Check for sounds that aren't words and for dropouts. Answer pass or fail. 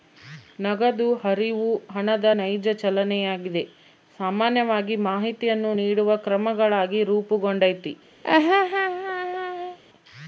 fail